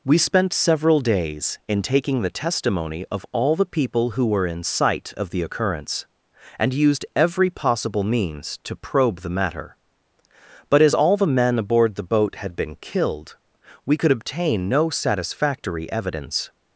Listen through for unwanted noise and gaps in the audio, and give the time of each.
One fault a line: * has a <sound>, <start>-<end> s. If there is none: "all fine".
all fine